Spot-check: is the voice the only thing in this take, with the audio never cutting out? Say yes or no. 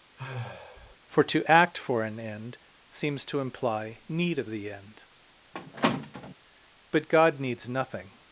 no